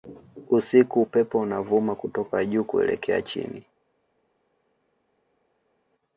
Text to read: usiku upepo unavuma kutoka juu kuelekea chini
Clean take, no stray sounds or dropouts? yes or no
yes